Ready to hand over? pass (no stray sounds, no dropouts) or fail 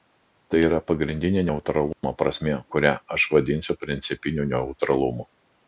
fail